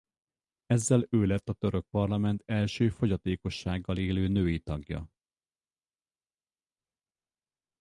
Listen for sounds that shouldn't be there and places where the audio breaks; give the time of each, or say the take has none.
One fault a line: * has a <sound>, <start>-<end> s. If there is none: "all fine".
all fine